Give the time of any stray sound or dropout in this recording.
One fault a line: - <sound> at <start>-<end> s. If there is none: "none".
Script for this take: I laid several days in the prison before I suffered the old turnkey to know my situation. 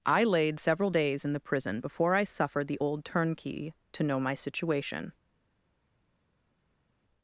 none